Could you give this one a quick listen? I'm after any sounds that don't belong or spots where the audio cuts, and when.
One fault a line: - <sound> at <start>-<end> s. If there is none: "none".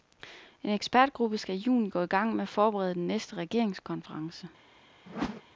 - whoosh at 5.1-5.4 s